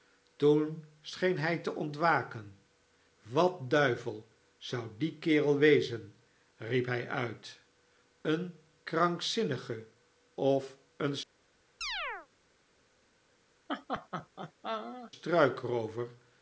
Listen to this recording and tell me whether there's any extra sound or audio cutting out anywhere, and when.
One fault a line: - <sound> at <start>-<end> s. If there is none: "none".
- chirp at 11.8-12.3 s
- laugh at 13.7-15.1 s